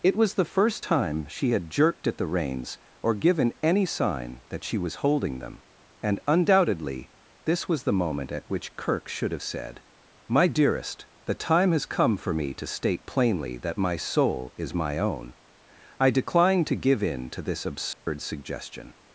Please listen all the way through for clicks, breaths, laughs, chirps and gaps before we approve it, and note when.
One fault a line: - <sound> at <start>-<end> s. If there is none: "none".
- dropout at 17.9-18.1 s